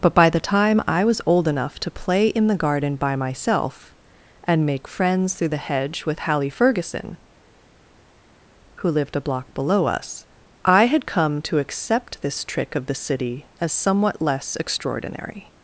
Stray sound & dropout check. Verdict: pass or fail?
pass